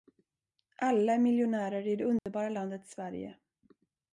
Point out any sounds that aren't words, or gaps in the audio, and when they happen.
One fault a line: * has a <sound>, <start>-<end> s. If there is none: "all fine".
* has a dropout, 2.2-2.3 s